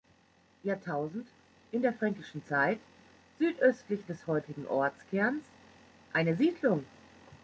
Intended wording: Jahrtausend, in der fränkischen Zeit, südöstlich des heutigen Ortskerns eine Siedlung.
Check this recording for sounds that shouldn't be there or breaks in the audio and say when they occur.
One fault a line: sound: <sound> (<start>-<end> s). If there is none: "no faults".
no faults